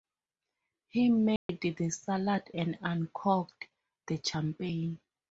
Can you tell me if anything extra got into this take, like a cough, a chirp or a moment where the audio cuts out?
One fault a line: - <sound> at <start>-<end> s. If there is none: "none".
- dropout at 1.4-1.5 s